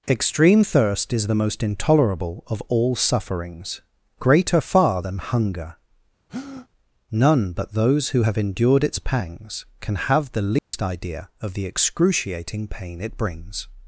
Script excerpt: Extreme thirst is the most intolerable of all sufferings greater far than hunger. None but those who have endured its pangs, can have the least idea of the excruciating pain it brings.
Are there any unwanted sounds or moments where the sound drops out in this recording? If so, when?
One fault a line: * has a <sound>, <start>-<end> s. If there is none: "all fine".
* has a breath, 6.3-6.7 s
* has a dropout, 10.6-10.7 s